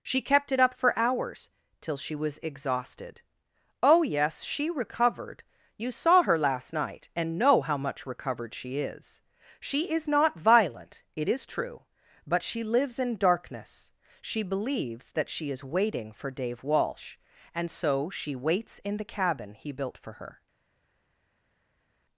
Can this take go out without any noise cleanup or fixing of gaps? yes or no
yes